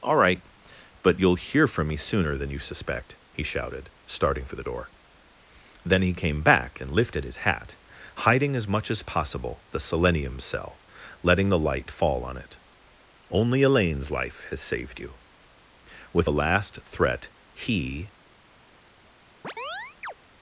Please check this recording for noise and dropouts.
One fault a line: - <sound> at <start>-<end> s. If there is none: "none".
- chirp at 19.4-20.1 s